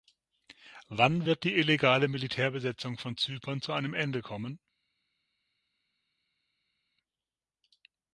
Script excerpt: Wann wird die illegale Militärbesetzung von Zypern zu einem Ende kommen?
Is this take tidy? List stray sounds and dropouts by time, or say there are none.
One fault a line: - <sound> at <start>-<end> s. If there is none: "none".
none